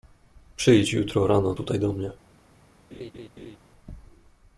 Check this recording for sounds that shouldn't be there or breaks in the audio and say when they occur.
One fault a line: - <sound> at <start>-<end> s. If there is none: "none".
- laugh at 2.9-3.6 s